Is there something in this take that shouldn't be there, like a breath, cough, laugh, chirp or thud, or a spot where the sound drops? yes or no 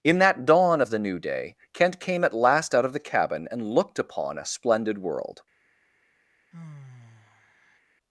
yes